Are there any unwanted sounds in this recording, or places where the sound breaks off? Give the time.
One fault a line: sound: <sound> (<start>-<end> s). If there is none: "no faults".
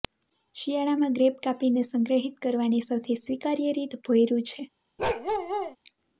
sound: bark (5.0-5.8 s)